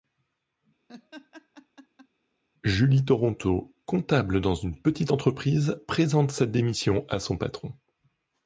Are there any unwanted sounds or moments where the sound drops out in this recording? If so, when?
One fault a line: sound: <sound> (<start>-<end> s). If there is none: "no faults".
sound: laugh (0.9-2.1 s)